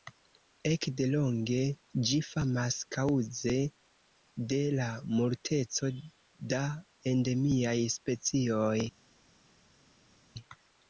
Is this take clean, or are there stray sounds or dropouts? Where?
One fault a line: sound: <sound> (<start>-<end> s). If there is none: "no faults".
no faults